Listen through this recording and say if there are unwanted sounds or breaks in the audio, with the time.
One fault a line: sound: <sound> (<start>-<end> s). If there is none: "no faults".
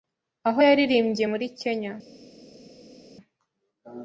no faults